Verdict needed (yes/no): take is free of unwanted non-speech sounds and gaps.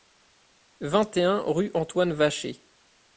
yes